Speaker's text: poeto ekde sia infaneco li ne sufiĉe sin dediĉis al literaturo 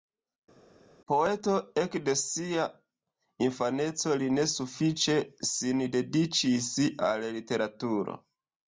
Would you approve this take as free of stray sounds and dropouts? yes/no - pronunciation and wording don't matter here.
yes